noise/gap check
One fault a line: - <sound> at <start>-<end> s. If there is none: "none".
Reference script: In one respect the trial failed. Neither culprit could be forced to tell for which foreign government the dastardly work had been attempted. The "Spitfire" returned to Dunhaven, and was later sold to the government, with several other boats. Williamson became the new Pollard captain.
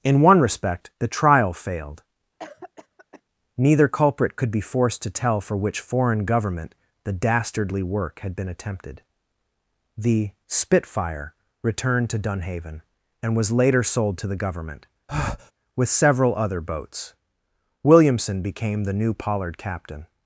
- cough at 2.4-3.2 s
- breath at 15.1-15.5 s